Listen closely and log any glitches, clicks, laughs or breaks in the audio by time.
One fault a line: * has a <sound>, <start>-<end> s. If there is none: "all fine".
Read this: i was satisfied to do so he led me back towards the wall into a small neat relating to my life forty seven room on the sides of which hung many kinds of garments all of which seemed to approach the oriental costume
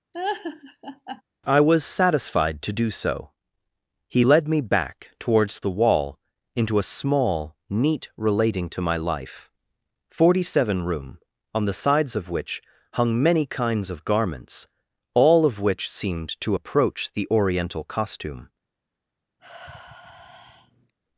* has a laugh, 0.1-1.2 s
* has a sigh, 19.4-20.9 s